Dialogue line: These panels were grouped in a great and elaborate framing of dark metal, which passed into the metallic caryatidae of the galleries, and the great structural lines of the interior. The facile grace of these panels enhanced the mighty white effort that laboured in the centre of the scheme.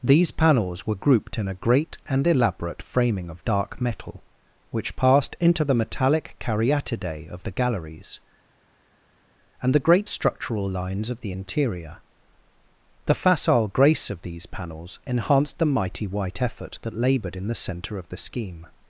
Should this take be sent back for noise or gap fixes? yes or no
no